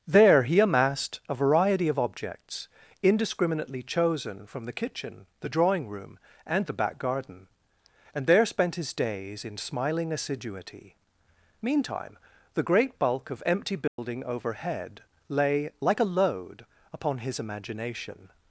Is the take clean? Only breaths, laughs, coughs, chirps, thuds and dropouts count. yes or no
no